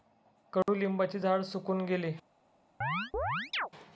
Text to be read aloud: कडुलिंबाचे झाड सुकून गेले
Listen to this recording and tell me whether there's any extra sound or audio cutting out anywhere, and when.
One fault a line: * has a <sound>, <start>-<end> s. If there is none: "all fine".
* has a dropout, 0.6-0.7 s
* has a chirp, 2.8-3.7 s